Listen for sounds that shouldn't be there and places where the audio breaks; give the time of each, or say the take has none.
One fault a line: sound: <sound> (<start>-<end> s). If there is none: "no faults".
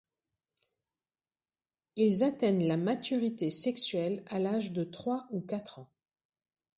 no faults